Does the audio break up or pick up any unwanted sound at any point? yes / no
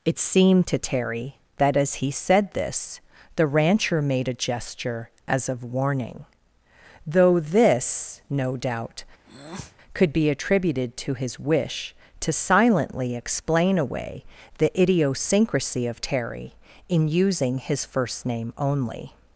yes